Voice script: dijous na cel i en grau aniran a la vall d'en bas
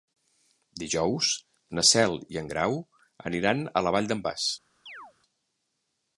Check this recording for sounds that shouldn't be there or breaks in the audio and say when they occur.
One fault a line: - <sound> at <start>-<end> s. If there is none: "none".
- chirp at 4.9-5.1 s